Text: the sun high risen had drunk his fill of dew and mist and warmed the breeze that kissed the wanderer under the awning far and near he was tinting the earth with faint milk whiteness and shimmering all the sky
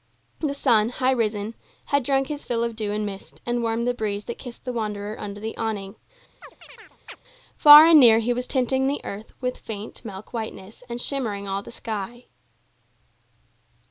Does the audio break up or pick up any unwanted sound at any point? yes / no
yes